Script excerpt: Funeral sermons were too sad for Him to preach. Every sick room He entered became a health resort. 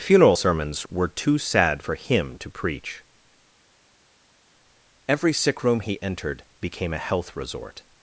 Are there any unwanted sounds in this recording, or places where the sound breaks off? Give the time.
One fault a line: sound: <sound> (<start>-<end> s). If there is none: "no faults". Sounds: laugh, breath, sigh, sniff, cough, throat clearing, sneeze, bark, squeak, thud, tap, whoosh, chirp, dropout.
no faults